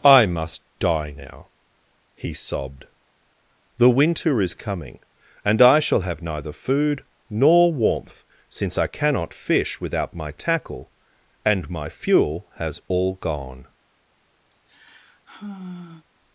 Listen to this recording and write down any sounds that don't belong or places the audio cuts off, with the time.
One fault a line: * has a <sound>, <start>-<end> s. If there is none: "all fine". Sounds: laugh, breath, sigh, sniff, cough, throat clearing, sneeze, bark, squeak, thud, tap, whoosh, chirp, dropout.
* has a sigh, 14.5-16.1 s